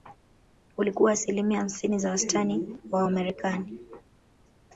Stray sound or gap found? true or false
false